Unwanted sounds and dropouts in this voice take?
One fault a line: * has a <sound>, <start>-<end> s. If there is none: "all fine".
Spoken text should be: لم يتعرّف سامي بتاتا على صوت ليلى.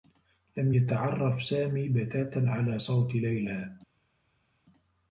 all fine